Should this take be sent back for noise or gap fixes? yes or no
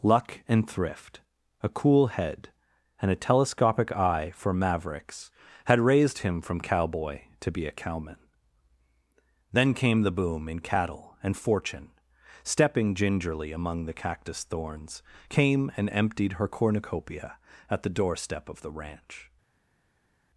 no